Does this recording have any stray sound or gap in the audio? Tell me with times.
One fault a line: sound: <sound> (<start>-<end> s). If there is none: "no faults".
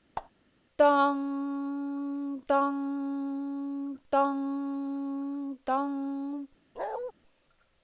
sound: squeak (0.2-0.3 s)
sound: bark (6.8-7.1 s)